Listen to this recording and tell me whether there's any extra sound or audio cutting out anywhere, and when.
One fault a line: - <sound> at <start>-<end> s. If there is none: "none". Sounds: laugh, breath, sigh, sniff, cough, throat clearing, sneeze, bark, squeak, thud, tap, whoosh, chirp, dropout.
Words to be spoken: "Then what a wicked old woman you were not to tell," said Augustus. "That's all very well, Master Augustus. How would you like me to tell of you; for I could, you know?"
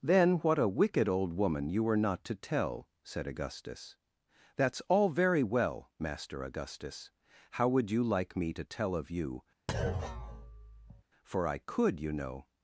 - thud at 9.7-11.0 s